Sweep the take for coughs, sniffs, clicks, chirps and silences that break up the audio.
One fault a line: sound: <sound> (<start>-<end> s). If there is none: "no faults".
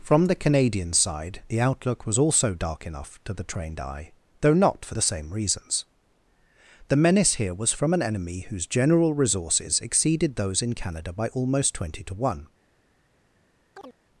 sound: chirp (13.7-14.0 s)